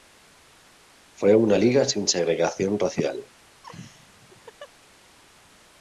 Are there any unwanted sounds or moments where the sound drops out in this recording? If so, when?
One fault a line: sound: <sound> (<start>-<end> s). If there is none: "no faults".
sound: laugh (3.6-4.7 s)